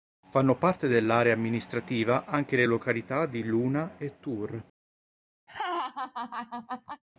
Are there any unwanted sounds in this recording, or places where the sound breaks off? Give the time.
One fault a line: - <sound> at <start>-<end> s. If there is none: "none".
- laugh at 5.5-7.0 s